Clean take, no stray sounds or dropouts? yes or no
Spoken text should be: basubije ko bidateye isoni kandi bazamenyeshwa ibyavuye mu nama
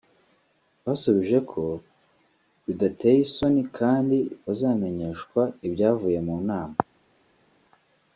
yes